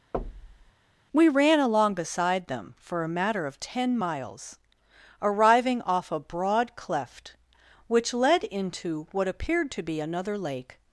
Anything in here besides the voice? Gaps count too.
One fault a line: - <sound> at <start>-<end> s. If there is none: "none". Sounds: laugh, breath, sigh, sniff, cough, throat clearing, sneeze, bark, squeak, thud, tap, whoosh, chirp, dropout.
- thud at 0.1-0.7 s